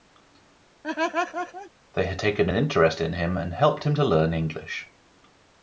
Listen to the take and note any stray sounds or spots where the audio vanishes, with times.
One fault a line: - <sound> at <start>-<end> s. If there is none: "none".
- laugh at 0.8-1.7 s